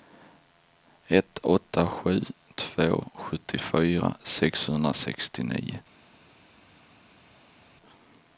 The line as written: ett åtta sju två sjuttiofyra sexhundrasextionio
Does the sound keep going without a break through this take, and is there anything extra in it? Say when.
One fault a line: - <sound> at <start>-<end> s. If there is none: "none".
none